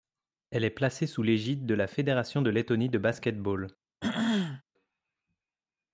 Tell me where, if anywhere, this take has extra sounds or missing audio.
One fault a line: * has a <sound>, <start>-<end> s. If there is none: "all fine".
* has a throat clearing, 4.0-4.6 s